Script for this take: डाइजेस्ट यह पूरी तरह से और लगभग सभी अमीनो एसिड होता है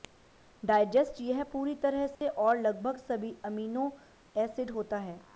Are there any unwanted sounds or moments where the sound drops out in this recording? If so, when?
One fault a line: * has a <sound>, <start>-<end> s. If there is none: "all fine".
* has a dropout, 2.1-2.2 s